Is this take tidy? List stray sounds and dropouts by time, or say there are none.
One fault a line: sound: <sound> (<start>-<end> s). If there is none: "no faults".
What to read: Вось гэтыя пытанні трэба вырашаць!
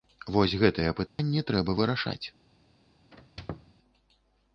sound: dropout (1.1-1.2 s)
sound: squeak (3.1-3.7 s)